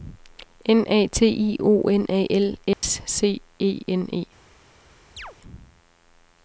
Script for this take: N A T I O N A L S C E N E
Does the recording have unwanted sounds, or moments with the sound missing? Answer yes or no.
yes